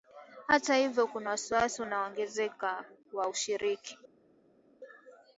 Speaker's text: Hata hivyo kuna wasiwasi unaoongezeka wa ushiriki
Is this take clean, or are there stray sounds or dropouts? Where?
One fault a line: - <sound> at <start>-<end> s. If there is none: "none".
none